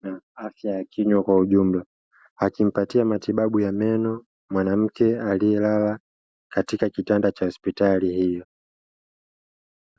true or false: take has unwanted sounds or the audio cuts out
false